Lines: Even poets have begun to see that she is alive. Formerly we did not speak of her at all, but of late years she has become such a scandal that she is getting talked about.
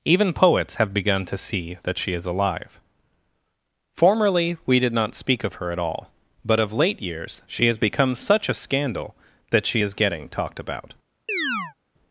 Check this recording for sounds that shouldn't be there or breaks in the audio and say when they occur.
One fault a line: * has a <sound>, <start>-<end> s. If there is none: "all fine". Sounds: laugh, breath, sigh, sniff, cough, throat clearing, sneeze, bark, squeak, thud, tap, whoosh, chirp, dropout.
* has a chirp, 11.3-11.7 s